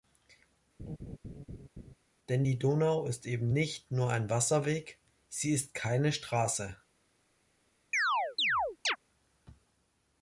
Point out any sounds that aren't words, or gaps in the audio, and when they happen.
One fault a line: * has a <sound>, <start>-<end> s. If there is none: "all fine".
* has a laugh, 0.8-1.9 s
* has a chirp, 7.9-9.0 s